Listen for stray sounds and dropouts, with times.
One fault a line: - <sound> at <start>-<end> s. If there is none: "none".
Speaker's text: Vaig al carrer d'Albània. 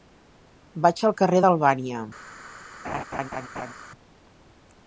- laugh at 2.8-3.7 s